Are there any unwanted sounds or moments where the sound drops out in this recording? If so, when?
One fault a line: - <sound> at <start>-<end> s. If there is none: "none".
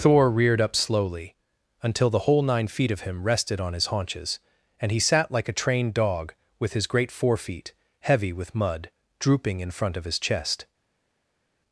none